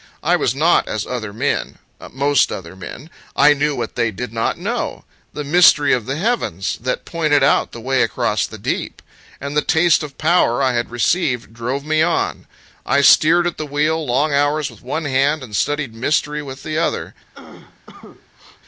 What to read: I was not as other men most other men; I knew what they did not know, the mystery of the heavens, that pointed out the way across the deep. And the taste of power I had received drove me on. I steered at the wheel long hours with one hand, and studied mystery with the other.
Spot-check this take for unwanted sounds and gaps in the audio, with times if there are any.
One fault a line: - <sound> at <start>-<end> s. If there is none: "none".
- cough at 17.3-18.6 s